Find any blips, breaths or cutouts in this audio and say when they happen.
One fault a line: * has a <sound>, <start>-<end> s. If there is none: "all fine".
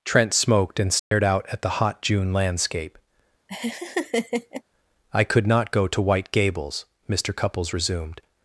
* has a dropout, 1.0-1.1 s
* has a laugh, 3.5-4.6 s